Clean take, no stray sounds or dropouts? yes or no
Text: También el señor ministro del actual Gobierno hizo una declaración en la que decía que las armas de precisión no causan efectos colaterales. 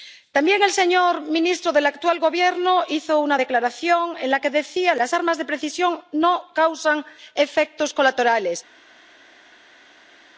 yes